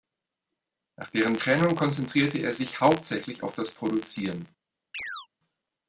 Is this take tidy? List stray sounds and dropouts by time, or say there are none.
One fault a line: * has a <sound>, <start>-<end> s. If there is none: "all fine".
* has a chirp, 4.9-5.3 s